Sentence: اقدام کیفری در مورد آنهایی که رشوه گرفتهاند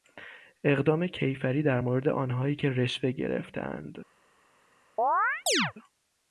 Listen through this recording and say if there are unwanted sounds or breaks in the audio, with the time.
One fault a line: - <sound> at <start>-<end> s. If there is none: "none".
- chirp at 5.0-5.7 s